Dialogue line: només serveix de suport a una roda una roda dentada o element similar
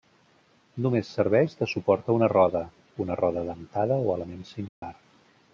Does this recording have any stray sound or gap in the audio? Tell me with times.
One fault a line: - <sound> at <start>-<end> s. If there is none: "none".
- dropout at 4.7-4.8 s